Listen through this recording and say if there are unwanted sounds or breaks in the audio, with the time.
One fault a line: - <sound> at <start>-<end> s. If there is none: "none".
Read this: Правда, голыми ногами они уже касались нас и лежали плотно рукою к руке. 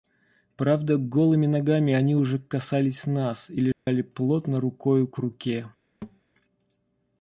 - dropout at 3.7-3.9 s
- thud at 6.0-6.2 s